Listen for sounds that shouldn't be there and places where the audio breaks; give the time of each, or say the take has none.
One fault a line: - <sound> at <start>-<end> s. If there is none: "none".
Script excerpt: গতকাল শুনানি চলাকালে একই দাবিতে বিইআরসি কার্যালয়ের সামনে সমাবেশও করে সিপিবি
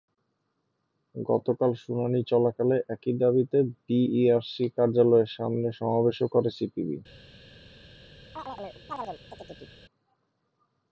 - chirp at 8.4-9.8 s